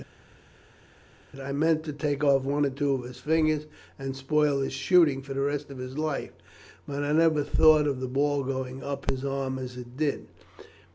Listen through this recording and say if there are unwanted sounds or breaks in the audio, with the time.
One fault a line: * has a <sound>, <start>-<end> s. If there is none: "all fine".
all fine